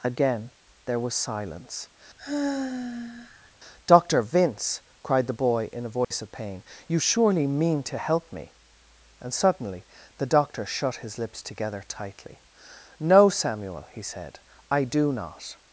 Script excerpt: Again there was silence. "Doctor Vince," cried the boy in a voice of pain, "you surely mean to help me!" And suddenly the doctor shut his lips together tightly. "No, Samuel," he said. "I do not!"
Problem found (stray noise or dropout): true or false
true